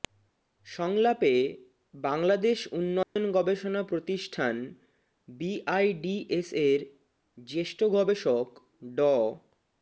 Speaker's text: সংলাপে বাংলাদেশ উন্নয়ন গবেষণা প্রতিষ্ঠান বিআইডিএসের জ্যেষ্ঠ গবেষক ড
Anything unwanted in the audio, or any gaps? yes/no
yes